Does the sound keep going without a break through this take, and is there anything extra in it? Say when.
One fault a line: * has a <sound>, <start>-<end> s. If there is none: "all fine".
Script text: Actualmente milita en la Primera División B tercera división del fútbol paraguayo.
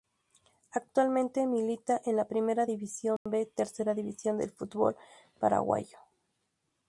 * has a dropout, 3.2-3.3 s